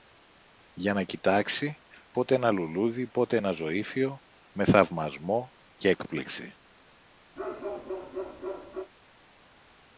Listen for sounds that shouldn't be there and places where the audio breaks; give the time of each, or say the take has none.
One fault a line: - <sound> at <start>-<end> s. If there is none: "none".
- bark at 7.4-8.9 s